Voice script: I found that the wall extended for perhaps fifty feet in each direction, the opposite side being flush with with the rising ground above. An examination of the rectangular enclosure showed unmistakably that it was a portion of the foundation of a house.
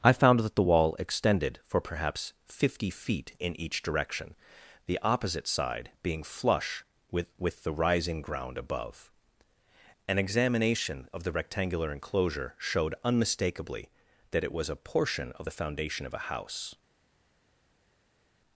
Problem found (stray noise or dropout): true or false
false